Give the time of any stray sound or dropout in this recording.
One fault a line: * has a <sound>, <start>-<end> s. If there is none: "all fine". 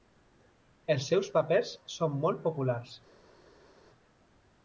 all fine